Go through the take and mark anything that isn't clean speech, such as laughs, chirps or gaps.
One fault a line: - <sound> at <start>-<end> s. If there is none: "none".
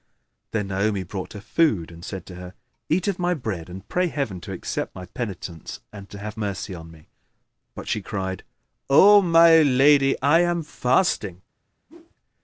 - whoosh at 11.9-12.2 s